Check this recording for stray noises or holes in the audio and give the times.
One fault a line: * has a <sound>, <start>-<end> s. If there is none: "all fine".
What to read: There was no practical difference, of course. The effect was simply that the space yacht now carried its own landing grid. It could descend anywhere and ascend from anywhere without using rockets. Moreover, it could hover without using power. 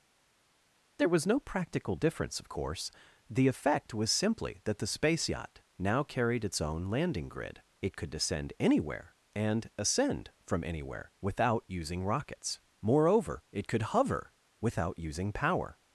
all fine